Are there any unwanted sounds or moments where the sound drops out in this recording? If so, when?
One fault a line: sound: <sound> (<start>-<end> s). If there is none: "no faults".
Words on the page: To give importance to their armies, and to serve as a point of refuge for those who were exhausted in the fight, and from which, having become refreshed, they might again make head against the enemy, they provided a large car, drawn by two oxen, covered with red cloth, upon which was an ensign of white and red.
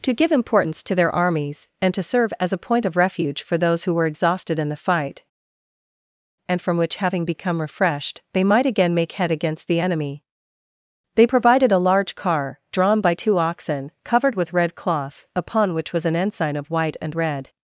no faults